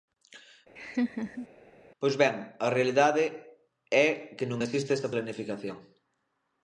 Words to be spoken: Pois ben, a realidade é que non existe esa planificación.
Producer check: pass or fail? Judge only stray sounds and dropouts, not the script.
fail